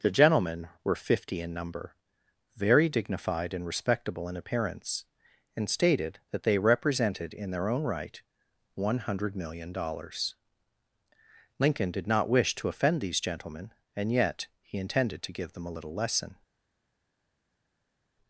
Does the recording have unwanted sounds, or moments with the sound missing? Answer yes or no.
no